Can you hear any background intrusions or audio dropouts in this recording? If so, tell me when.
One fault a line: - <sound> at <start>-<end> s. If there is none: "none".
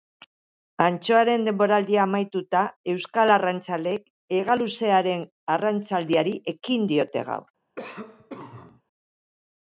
- cough at 7.8-8.8 s